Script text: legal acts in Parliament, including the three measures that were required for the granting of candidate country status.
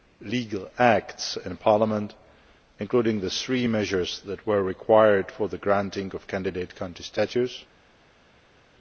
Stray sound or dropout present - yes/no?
no